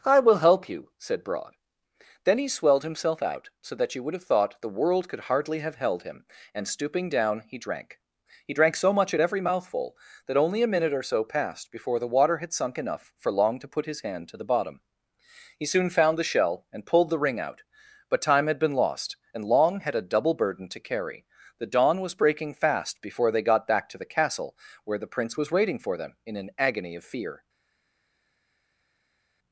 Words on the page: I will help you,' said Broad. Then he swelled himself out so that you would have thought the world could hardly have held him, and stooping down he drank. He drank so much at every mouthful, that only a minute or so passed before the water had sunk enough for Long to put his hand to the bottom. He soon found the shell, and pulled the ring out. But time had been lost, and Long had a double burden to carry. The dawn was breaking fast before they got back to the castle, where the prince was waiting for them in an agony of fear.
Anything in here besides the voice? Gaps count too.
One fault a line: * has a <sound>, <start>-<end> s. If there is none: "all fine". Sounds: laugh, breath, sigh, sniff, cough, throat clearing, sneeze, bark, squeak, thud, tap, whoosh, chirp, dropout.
all fine